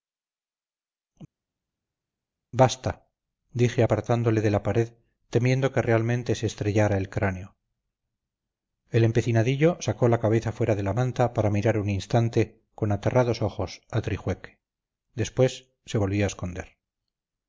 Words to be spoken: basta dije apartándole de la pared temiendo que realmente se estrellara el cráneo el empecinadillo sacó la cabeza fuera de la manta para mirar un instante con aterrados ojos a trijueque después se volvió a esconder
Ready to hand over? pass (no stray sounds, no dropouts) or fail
pass